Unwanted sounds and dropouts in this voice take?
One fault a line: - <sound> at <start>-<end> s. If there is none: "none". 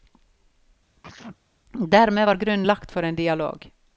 - sneeze at 1.0-1.4 s